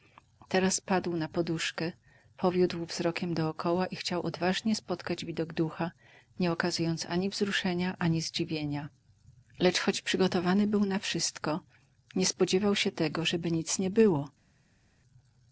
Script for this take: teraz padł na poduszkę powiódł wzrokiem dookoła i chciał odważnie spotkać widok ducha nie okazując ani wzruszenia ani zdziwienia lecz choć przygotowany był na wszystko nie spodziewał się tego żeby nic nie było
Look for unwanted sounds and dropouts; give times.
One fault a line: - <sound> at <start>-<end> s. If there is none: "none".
none